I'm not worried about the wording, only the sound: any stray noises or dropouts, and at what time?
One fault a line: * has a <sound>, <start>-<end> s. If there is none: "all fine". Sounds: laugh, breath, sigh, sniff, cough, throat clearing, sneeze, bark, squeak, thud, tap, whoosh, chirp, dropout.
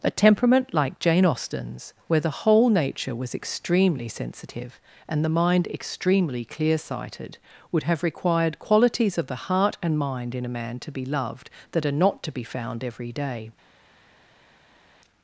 all fine